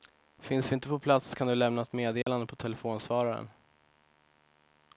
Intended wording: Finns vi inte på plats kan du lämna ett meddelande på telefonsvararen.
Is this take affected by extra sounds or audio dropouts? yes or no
yes